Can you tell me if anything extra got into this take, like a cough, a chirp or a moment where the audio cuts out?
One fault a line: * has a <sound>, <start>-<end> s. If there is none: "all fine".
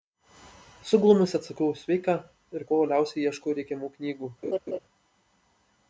* has a laugh, 4.4-4.8 s